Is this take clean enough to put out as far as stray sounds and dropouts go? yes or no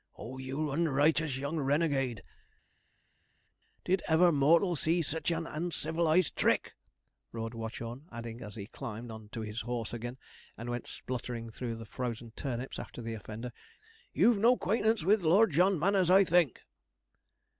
yes